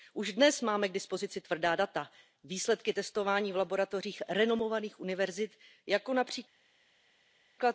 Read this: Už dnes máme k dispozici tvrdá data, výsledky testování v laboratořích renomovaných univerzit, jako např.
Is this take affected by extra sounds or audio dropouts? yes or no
no